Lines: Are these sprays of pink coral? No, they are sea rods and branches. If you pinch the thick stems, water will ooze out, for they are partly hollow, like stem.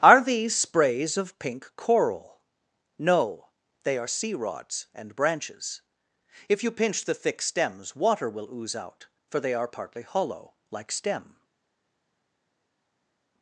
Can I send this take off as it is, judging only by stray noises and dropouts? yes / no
yes